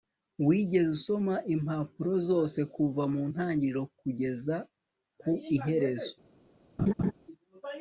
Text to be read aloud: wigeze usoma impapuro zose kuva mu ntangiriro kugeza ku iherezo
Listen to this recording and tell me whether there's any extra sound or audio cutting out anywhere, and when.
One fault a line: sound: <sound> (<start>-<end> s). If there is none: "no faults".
sound: laugh (6.8-7.1 s)